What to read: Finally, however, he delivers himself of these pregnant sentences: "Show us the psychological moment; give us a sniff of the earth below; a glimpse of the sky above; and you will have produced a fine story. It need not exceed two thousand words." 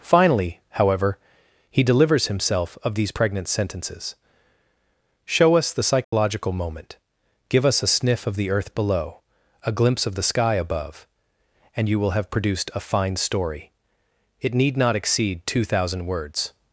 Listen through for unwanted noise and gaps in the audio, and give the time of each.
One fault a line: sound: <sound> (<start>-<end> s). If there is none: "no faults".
sound: dropout (6.0-6.1 s)